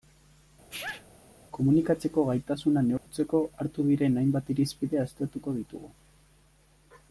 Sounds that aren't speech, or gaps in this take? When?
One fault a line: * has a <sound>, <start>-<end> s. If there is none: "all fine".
* has a sneeze, 0.7-1.1 s
* has a dropout, 3.0-3.1 s